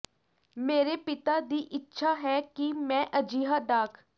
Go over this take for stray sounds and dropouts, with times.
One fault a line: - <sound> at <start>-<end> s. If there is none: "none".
none